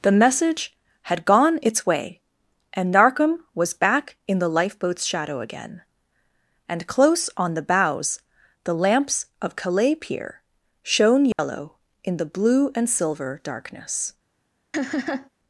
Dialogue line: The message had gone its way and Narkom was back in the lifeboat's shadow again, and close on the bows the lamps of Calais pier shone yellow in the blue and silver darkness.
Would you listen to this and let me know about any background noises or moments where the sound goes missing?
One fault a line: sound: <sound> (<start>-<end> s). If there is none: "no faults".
sound: dropout (11.3-11.4 s)
sound: laugh (14.7-15.3 s)